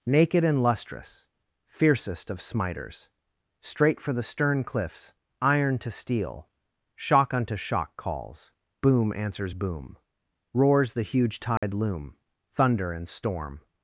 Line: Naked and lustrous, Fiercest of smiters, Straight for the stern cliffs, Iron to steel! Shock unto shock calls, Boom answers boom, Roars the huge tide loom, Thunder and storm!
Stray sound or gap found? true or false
true